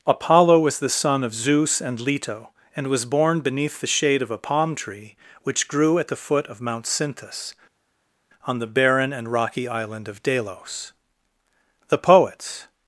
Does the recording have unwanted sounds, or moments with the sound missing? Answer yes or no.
no